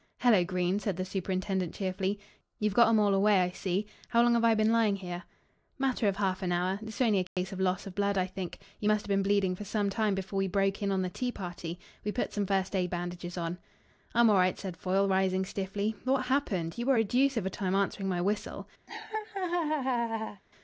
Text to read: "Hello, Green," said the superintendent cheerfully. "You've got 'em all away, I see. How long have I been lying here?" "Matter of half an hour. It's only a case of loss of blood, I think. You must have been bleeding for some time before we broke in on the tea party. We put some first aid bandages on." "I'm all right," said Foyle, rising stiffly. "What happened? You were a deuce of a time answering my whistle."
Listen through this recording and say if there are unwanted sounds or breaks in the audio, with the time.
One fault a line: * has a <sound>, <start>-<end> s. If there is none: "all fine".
* has a dropout, 7.3-7.4 s
* has a laugh, 18.9-20.4 s